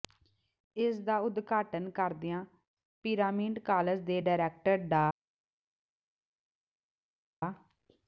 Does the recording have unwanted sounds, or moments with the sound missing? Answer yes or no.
no